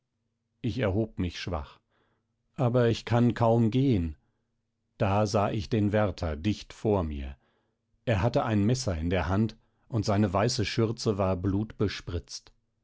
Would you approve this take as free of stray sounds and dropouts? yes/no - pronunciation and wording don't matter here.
yes